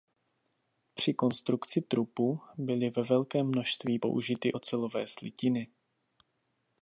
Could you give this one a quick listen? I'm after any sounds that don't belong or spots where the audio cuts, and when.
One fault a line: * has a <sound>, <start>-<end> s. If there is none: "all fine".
all fine